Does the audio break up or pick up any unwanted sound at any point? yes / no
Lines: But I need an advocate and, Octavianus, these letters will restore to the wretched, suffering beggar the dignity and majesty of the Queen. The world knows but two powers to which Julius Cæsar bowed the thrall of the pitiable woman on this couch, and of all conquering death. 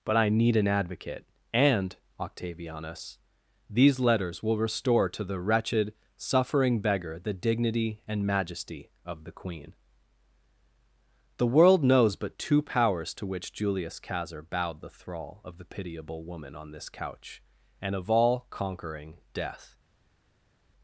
no